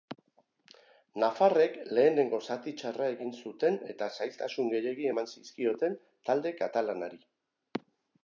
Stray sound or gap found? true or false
false